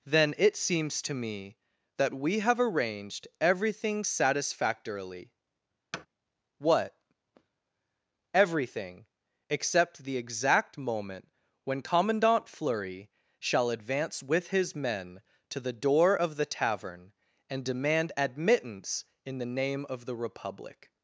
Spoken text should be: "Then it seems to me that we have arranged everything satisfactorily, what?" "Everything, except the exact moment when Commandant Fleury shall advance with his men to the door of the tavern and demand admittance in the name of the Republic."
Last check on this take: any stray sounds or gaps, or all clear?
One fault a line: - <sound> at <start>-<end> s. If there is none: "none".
- thud at 5.9-6.1 s